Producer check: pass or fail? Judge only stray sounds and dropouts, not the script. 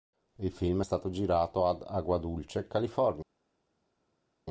pass